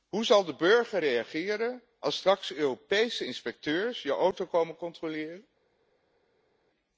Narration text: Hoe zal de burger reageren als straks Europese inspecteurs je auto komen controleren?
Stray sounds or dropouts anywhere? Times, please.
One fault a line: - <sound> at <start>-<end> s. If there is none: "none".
none